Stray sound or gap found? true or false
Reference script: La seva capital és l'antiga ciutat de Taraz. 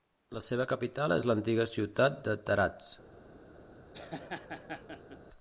true